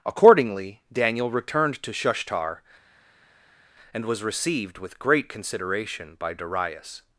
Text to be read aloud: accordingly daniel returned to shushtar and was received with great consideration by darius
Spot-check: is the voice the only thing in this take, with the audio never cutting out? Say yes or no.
yes